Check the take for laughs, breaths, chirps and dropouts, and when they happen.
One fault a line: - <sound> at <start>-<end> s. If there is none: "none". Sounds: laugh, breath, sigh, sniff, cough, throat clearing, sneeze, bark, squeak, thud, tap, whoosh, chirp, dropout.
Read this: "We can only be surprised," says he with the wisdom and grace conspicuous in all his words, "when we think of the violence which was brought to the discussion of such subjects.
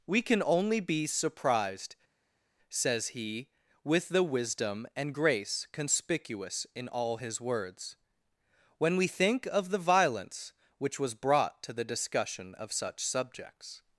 none